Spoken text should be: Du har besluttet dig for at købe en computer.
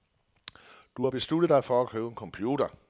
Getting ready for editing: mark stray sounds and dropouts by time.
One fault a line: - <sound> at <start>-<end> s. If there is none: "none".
none